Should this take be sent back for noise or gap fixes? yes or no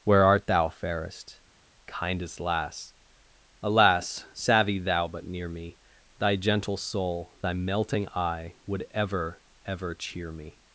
no